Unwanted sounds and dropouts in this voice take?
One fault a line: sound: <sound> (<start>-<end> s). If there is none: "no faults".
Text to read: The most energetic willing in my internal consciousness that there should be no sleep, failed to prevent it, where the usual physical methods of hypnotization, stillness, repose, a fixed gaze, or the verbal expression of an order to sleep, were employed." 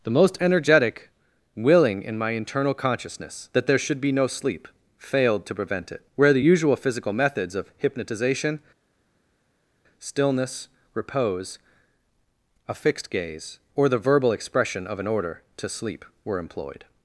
no faults